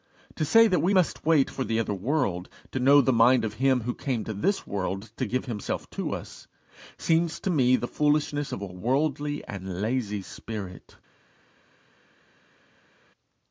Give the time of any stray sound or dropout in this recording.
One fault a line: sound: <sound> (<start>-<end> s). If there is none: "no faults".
no faults